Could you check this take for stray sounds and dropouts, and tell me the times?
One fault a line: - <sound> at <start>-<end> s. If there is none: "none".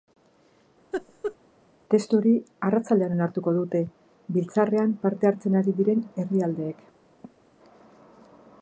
- laugh at 0.9-1.4 s
- cough at 7.2-7.5 s